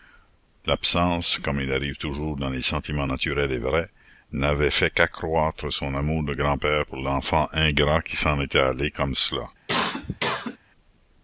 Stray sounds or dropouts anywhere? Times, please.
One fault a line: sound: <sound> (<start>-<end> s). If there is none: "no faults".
sound: cough (9.7-10.6 s)